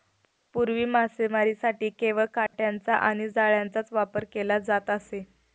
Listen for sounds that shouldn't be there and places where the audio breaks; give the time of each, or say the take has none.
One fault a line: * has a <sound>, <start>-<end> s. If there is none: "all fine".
* has a dropout, 2.5-2.5 s